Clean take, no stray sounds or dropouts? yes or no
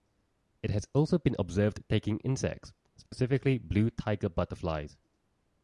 no